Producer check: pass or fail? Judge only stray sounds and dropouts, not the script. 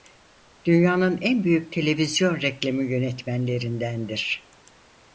pass